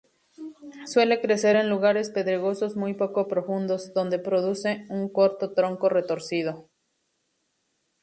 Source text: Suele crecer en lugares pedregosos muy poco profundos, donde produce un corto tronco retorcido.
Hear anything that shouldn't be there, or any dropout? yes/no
no